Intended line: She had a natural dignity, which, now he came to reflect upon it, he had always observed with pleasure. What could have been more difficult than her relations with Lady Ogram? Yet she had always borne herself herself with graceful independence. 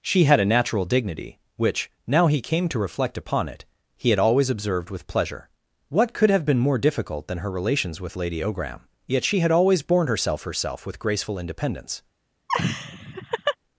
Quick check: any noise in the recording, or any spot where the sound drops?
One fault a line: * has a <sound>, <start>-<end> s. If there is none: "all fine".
* has a laugh, 12.5-13.6 s